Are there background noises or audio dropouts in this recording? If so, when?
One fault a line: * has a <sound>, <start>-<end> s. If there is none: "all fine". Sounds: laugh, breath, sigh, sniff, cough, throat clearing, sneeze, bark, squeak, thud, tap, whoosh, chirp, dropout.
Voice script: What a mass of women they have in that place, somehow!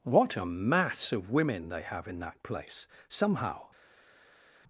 all fine